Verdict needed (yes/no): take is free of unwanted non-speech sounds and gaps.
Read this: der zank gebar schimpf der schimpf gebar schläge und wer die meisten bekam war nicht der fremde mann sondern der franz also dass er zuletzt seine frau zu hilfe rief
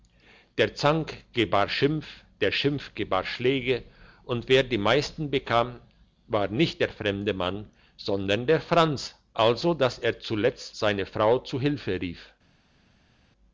yes